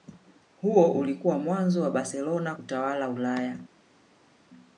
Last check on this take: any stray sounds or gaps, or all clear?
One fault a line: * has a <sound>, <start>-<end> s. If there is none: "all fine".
all fine